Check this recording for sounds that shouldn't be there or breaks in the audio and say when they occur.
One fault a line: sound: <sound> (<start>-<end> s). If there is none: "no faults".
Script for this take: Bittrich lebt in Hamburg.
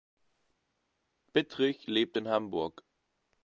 no faults